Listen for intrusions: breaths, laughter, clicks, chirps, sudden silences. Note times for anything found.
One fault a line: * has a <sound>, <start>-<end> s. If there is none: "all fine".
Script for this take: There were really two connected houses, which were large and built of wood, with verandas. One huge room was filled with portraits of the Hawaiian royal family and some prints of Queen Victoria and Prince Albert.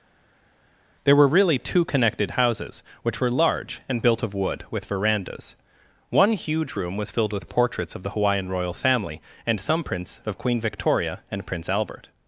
all fine